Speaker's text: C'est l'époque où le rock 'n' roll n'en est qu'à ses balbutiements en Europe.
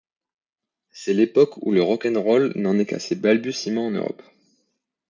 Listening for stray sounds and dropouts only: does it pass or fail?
pass